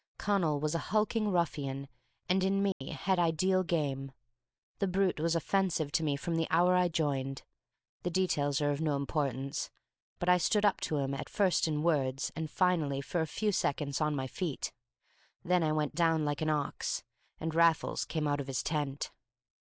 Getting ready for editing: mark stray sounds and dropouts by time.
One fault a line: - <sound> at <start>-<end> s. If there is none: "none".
- dropout at 2.7-2.8 s